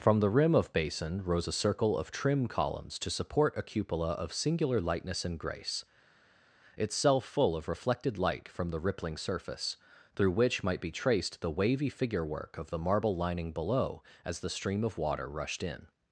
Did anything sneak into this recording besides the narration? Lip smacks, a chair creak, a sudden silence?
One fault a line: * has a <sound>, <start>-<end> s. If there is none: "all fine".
all fine